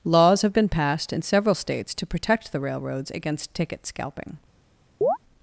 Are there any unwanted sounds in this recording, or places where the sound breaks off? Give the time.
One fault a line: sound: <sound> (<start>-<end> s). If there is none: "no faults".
sound: chirp (5.0-5.2 s)